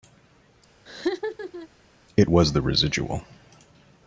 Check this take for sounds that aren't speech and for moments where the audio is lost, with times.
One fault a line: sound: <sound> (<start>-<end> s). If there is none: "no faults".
sound: laugh (0.9-1.7 s)